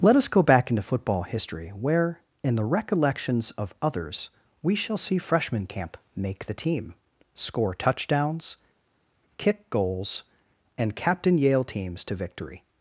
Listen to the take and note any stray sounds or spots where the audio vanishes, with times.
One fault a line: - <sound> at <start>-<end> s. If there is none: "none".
none